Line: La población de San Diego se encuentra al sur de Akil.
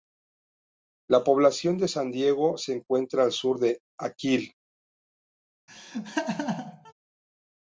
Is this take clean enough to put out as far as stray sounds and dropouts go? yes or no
no